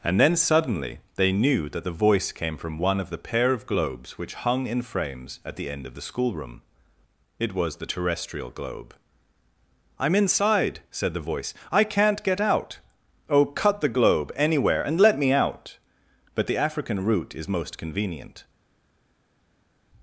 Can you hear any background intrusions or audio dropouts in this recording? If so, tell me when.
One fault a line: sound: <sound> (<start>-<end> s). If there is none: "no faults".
no faults